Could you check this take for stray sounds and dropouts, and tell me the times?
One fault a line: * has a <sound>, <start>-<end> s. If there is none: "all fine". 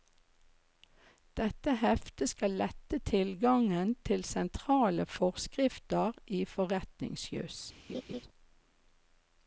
* has a laugh, 7.9-8.2 s